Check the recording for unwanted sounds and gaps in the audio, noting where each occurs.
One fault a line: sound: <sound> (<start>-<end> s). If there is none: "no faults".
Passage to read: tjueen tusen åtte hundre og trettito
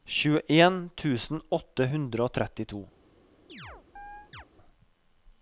sound: chirp (3.5-4.5 s)